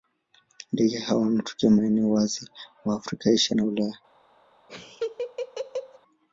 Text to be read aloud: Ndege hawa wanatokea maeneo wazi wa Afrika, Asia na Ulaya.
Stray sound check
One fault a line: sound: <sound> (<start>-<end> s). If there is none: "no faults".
sound: laugh (4.7-6.0 s)